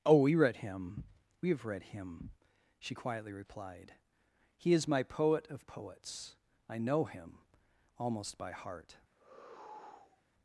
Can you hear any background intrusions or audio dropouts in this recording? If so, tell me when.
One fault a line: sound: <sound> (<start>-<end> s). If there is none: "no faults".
sound: sigh (9.1-10.2 s)